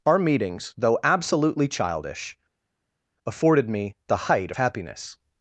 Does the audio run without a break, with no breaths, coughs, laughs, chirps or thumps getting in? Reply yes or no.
yes